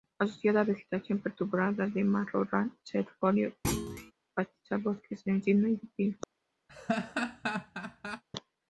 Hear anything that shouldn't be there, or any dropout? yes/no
yes